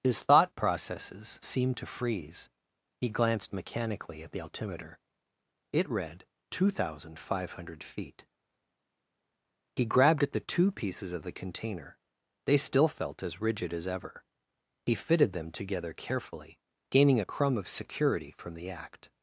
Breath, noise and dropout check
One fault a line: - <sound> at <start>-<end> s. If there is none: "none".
none